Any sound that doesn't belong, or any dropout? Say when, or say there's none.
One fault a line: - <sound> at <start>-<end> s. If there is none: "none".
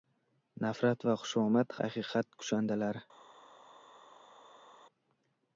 none